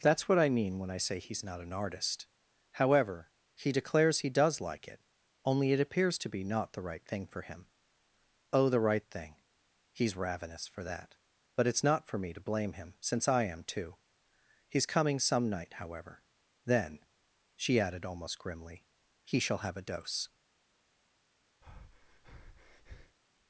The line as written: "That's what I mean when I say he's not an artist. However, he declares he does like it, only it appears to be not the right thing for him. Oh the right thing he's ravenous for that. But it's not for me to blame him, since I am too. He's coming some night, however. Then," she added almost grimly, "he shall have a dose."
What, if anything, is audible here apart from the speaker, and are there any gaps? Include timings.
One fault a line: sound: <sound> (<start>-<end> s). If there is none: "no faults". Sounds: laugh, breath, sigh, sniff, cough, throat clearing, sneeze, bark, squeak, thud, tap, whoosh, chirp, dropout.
sound: breath (21.6-23.2 s)